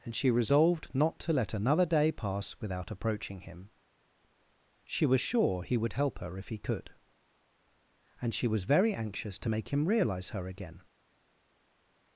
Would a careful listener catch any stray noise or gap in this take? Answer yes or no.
no